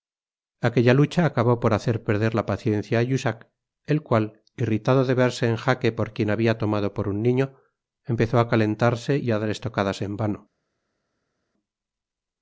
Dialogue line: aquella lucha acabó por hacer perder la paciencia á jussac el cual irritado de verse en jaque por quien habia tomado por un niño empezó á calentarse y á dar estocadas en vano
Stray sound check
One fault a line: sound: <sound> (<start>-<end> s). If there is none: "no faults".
no faults